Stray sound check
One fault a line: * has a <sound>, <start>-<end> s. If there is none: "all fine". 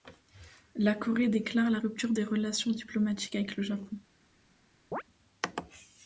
* has a chirp, 4.9-5.0 s